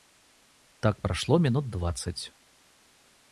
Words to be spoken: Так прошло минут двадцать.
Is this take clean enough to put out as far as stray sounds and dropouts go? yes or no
yes